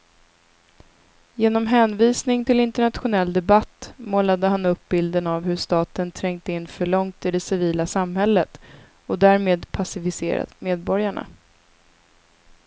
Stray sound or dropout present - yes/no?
no